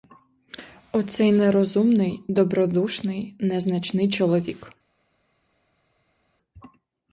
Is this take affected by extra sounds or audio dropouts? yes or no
no